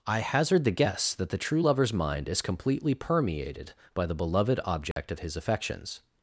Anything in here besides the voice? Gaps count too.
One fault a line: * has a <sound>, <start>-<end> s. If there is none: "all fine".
* has a dropout, 4.9-5.0 s